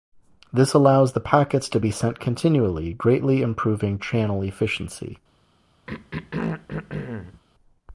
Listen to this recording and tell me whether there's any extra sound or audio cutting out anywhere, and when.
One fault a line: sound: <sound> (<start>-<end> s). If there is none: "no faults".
sound: throat clearing (5.9-7.4 s)